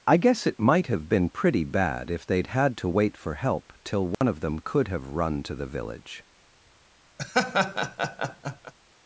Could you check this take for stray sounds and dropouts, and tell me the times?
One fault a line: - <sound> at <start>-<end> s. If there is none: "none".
- dropout at 4.1-4.2 s
- laugh at 7.2-8.7 s